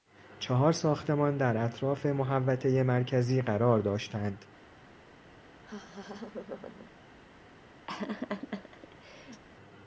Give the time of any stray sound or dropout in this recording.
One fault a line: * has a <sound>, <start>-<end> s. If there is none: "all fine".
* has a laugh, 5.6-6.9 s
* has a laugh, 7.9-9.4 s